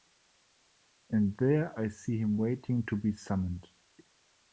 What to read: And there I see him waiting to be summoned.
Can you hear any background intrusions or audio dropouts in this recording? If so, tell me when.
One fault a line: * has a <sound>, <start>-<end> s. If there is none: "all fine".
all fine